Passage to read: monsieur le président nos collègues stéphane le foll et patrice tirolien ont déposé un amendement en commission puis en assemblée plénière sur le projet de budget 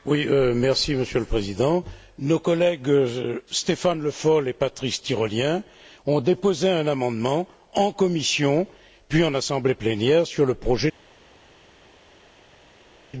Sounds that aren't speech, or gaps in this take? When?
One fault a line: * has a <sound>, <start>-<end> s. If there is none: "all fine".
all fine